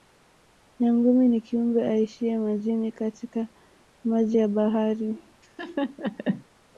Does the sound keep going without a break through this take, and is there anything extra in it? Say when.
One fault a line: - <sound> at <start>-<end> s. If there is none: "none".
- laugh at 5.4-6.4 s